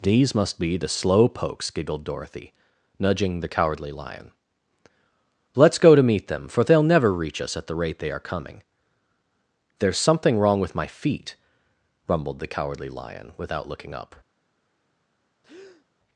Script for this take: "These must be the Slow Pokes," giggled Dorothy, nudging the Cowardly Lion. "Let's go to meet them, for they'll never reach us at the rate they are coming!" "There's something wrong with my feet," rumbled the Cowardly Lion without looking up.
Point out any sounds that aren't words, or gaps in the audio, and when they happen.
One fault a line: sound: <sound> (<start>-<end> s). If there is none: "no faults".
sound: breath (15.4-15.9 s)